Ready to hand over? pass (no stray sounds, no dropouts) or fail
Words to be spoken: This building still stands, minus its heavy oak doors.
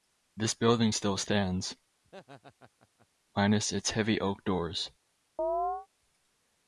fail